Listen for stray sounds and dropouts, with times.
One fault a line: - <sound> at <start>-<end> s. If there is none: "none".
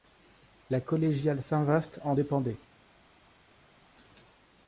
none